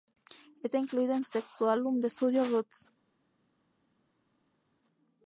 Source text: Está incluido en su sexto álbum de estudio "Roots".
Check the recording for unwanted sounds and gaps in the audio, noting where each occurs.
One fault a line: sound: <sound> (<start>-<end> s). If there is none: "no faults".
no faults